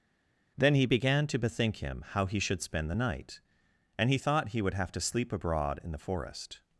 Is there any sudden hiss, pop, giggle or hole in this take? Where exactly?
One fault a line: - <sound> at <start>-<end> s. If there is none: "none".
none